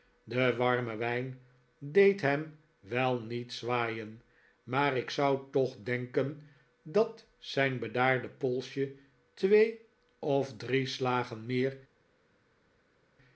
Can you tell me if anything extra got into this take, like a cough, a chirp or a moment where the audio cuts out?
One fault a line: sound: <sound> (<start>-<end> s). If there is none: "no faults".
no faults